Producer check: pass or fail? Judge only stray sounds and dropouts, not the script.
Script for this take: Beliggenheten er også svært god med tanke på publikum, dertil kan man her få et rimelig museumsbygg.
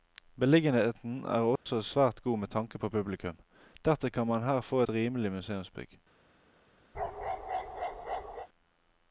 fail